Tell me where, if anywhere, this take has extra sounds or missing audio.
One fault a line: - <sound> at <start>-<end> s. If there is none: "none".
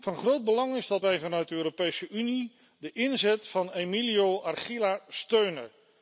none